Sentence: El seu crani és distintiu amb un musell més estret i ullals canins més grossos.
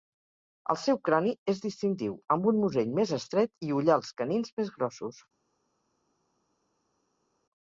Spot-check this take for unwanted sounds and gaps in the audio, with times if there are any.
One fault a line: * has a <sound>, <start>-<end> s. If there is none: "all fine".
all fine